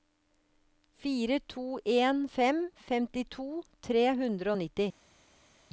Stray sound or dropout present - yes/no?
no